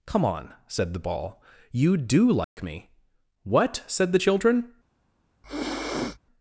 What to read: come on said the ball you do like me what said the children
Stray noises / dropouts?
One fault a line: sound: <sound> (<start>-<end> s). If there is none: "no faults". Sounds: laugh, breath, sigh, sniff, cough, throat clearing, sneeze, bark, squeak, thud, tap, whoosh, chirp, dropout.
sound: dropout (2.4-2.6 s)
sound: sniff (5.4-6.2 s)